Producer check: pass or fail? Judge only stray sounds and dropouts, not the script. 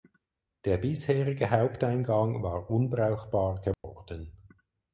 fail